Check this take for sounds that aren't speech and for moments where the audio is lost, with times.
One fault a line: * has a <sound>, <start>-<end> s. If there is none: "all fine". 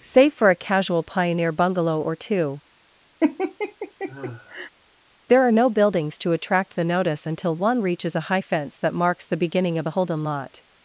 * has a laugh, 3.2-4.7 s